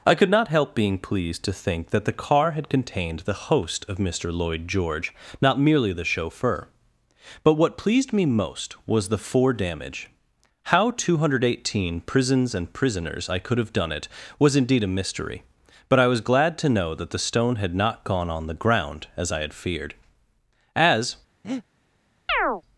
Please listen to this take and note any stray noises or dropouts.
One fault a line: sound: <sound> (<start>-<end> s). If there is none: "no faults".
sound: breath (21.4-21.6 s)
sound: chirp (22.3-22.6 s)